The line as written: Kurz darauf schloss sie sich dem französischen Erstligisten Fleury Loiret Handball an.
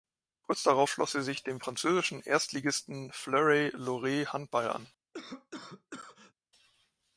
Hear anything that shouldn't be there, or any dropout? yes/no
yes